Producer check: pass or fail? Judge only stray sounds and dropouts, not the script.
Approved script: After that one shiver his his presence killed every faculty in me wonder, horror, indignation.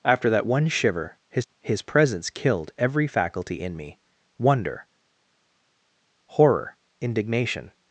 pass